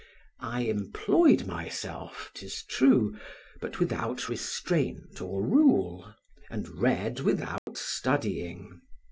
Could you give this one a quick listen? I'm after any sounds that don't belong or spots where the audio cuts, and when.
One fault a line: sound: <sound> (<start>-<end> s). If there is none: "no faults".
sound: dropout (7.6-7.7 s)